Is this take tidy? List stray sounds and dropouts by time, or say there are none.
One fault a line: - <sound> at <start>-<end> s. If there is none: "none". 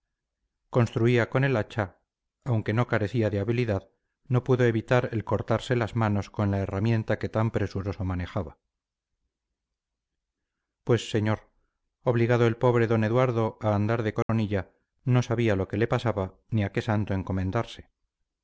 - dropout at 14.2-14.3 s